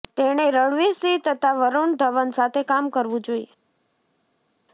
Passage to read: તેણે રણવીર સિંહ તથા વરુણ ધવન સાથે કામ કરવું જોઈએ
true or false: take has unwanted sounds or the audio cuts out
false